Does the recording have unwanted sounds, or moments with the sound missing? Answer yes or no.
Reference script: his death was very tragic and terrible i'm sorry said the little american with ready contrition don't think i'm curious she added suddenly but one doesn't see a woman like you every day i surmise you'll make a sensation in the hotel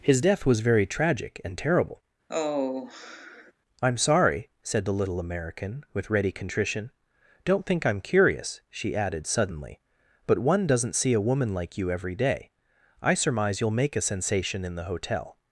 yes